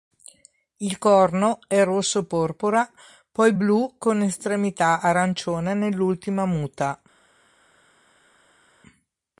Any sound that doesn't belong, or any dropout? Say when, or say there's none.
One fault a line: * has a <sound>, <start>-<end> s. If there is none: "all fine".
all fine